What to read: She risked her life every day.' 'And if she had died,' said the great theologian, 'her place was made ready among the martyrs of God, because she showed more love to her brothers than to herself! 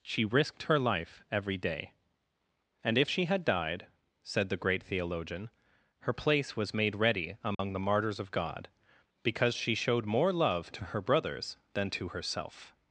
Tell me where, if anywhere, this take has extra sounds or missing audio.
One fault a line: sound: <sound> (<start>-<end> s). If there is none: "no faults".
sound: dropout (7.5-7.6 s)